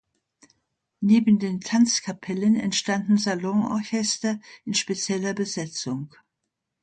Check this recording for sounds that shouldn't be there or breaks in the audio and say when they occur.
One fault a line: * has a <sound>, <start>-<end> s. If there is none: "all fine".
all fine